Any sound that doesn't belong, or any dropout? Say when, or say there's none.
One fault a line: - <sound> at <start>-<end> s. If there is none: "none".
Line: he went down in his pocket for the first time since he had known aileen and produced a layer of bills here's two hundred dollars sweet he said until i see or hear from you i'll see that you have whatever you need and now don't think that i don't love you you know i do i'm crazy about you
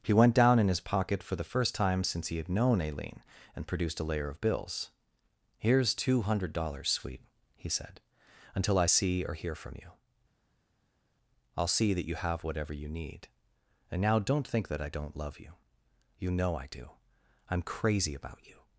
none